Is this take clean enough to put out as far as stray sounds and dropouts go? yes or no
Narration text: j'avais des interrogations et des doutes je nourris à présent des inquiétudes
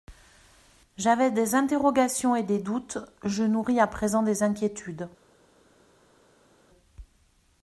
yes